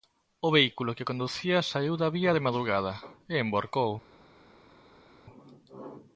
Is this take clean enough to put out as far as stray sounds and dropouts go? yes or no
yes